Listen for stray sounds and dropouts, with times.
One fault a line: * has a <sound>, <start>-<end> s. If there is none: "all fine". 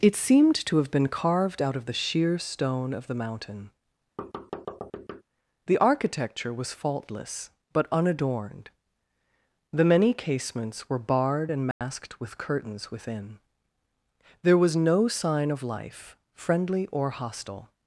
* has a thud, 4.2-5.2 s
* has a dropout, 11.7-11.8 s